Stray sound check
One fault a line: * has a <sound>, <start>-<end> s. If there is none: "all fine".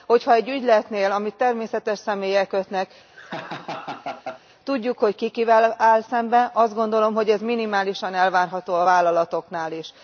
* has a laugh, 3.1-4.4 s